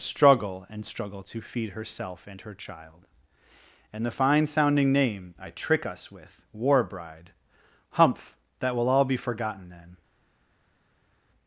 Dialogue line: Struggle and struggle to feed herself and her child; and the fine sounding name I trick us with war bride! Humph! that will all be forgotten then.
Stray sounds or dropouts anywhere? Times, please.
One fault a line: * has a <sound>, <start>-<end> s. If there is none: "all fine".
all fine